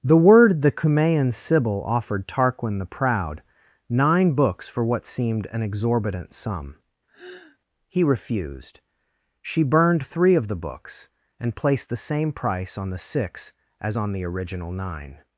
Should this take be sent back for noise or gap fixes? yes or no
yes